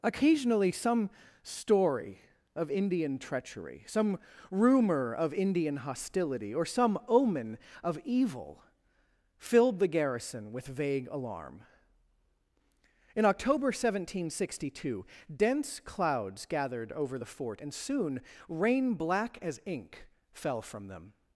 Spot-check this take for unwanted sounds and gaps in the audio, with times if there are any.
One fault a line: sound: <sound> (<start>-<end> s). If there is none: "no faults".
no faults